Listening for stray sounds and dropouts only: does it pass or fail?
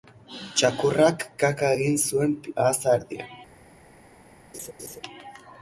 fail